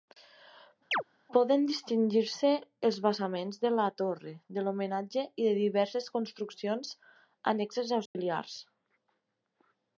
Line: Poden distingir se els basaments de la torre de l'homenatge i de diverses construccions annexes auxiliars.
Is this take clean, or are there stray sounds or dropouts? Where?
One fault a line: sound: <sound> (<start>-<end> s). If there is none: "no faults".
sound: chirp (0.9-1.0 s)
sound: dropout (8.1-8.2 s)